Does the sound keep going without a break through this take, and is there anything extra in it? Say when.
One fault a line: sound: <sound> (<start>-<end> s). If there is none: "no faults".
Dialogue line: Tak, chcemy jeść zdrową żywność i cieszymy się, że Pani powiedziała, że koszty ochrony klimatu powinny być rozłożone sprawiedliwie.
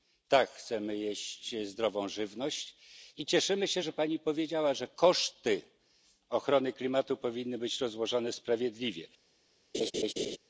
sound: laugh (9.7-10.4 s)